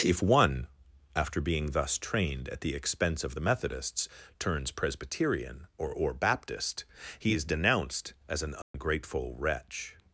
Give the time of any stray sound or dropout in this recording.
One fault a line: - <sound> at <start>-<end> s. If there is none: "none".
- dropout at 8.6-8.7 s